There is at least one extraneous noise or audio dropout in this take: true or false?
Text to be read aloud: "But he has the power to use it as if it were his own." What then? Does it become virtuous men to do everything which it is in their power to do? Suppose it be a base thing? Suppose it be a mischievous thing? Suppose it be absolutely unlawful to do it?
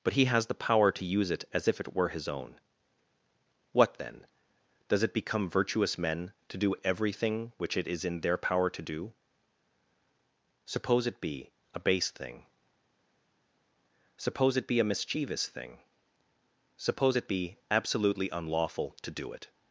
false